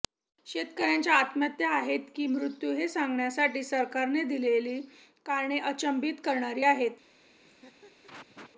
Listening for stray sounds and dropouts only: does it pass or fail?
fail